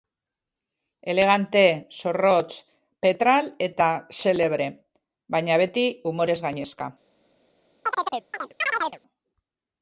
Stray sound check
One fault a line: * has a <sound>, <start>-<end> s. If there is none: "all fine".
* has a chirp, 7.8-9.0 s